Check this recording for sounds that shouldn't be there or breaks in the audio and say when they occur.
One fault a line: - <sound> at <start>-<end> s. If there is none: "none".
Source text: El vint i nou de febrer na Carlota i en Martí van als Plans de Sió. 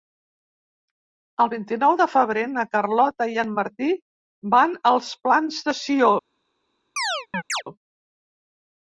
- chirp at 7.0-7.6 s